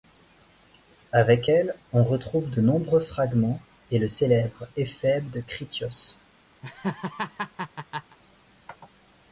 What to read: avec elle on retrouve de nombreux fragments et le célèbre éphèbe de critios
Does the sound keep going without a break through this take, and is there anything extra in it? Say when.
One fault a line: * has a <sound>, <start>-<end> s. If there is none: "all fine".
* has a laugh, 6.6-8.2 s